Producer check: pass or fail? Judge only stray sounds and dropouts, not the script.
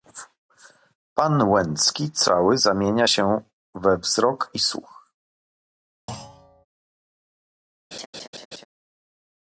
fail